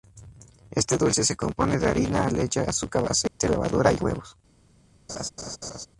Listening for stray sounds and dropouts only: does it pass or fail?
fail